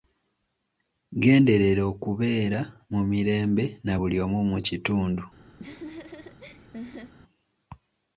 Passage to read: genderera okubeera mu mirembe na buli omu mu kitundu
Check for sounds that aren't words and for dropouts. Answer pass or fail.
fail